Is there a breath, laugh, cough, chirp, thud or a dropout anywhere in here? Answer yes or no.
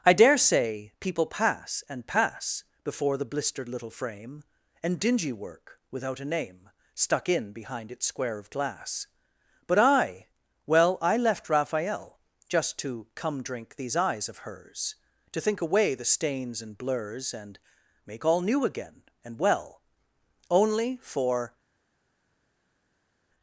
no